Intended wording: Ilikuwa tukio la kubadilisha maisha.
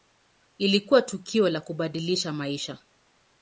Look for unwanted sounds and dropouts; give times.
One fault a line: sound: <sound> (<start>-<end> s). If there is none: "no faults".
no faults